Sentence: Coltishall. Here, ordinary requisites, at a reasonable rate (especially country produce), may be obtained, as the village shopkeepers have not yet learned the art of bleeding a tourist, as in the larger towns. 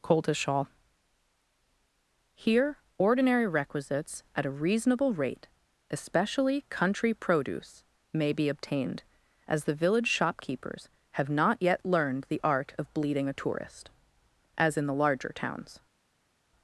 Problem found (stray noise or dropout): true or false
false